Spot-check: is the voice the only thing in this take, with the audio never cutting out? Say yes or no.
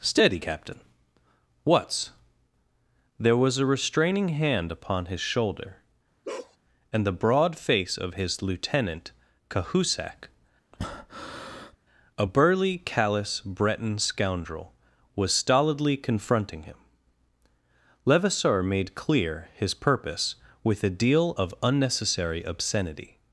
no